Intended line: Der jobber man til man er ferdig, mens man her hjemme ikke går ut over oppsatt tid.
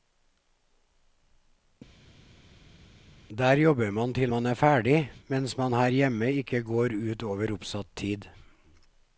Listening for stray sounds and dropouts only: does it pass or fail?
pass